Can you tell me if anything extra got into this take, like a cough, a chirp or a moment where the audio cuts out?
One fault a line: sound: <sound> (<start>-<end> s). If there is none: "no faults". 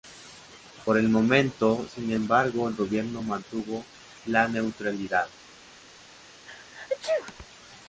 sound: sneeze (6.5-7.5 s)